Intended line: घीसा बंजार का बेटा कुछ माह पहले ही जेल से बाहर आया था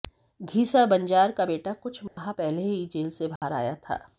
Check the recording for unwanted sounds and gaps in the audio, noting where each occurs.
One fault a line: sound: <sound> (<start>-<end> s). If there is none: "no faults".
sound: dropout (2.1-2.2 s)
sound: dropout (3.4-3.4 s)